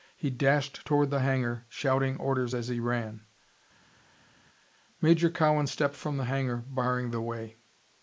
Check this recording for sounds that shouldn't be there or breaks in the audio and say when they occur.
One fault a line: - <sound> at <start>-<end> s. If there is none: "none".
none